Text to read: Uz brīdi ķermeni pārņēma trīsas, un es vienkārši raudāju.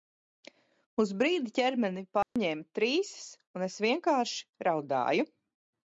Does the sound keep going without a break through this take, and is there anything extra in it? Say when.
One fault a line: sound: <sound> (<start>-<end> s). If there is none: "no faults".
sound: dropout (2.2-2.4 s)